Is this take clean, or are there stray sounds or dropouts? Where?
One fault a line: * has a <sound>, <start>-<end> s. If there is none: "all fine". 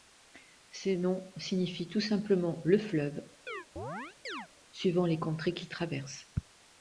* has a chirp, 3.5-4.5 s